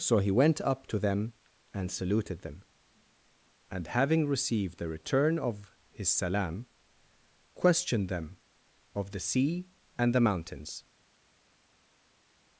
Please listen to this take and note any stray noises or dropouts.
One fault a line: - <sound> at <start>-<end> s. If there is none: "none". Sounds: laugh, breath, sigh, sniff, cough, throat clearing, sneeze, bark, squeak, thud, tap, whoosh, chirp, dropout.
none